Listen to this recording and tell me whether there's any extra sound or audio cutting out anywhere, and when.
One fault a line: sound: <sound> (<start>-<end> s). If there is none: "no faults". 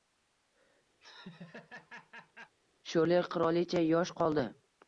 sound: laugh (1.0-2.5 s)